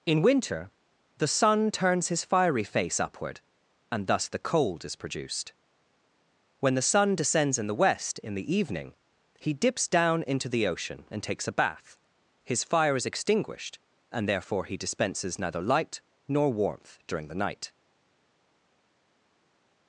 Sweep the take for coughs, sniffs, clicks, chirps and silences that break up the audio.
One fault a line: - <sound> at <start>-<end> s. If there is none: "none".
none